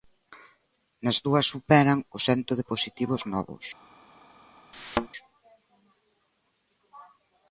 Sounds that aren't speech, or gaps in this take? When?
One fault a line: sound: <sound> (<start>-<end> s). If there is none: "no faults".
sound: thud (4.7-5.1 s)